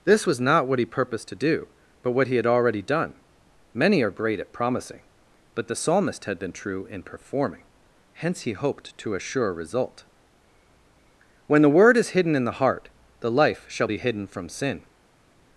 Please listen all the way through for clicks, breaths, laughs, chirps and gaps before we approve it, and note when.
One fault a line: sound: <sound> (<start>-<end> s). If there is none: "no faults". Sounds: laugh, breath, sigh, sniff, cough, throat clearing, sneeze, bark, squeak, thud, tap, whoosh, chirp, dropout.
no faults